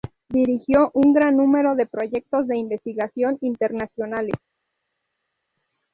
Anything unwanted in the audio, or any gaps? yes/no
no